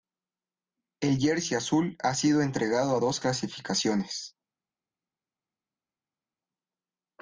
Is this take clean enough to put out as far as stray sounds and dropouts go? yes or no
yes